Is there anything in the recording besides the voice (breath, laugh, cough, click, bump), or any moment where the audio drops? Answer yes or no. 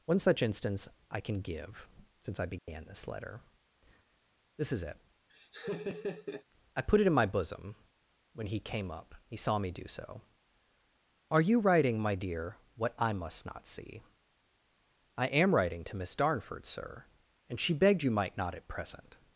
yes